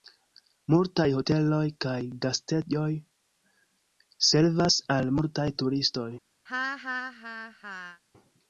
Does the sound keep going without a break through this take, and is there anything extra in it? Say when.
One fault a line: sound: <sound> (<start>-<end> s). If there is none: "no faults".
sound: laugh (6.5-8.0 s)